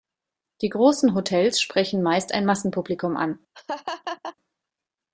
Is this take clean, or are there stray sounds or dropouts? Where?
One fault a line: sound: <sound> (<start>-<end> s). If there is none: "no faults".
sound: laugh (3.5-4.4 s)